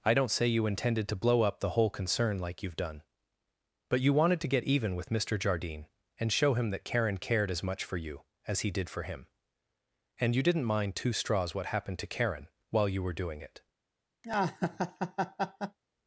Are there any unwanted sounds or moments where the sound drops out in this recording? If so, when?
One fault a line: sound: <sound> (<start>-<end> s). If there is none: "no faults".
sound: laugh (14.2-15.8 s)